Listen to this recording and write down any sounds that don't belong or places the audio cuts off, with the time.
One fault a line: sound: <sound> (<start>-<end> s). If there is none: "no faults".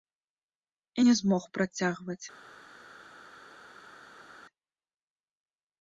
no faults